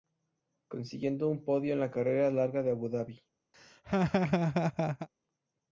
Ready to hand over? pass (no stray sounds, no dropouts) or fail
fail